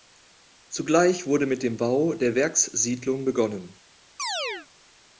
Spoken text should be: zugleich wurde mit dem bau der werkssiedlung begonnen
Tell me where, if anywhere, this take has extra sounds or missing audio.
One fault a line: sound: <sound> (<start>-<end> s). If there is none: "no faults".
sound: chirp (4.2-4.7 s)